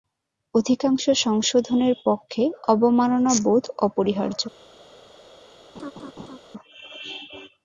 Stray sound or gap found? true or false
true